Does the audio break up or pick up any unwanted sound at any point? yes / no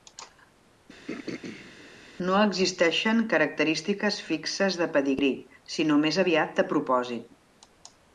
yes